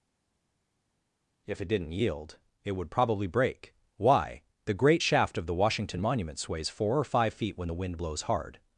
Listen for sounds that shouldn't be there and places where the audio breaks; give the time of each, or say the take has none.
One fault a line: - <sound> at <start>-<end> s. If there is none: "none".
none